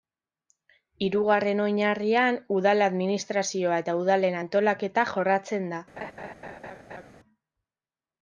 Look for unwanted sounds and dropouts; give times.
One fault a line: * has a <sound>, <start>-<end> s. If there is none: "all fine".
* has a laugh, 6.0-7.1 s